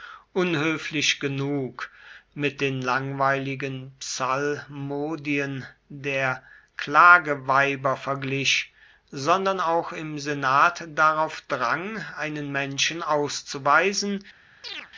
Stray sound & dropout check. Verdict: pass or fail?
fail